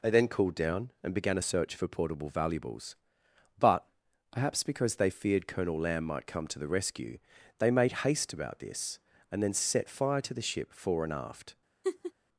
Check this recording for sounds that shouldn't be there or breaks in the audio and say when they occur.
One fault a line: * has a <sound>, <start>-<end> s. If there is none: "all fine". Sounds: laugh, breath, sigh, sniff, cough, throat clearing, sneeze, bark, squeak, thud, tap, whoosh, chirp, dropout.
* has a laugh, 11.8-12.1 s